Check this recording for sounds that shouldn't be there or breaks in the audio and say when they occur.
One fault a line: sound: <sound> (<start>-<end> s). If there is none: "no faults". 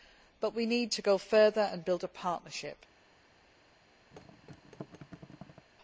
sound: thud (4.1-5.7 s)